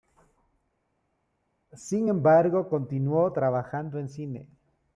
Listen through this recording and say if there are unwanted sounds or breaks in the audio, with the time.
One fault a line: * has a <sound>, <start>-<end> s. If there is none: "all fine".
all fine